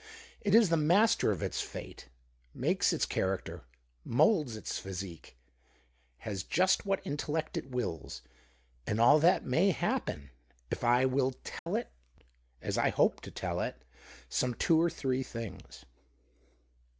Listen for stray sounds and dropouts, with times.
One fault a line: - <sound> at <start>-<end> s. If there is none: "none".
- dropout at 11.6-11.7 s